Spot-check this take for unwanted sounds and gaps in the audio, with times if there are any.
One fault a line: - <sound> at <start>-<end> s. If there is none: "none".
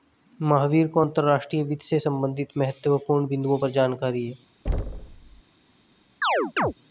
- thud at 4.7-5.4 s
- chirp at 6.2-6.7 s